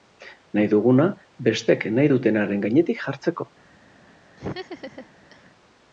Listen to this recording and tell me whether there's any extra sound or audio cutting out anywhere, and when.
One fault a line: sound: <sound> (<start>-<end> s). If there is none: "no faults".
sound: laugh (4.4-5.5 s)